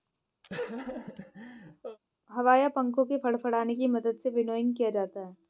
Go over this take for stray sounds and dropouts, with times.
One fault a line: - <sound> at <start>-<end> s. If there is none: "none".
- laugh at 0.4-2.0 s